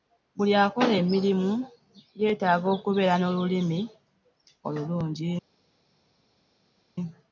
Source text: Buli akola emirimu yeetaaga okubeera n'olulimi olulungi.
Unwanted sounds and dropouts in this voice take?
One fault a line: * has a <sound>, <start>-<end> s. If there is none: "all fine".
all fine